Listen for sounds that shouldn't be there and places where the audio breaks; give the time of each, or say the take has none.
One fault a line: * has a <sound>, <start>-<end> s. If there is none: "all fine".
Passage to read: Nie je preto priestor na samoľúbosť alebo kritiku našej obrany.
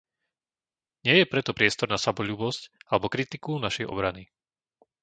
all fine